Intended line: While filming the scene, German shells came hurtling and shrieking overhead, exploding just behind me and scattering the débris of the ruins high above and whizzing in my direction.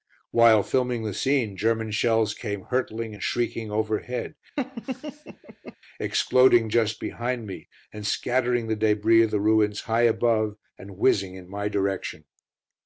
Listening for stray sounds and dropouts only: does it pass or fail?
fail